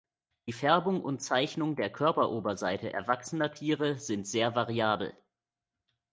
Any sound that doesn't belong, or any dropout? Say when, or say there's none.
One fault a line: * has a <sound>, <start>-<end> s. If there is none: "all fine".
all fine